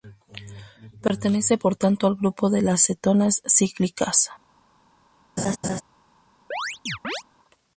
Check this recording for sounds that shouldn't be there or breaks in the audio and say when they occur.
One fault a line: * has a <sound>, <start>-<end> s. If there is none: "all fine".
* has a laugh, 5.4-5.8 s
* has a chirp, 6.5-7.2 s